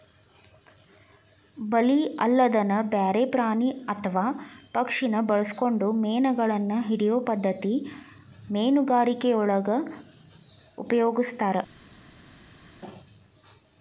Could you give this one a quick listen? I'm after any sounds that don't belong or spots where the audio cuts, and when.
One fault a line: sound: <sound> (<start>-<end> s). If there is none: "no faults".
no faults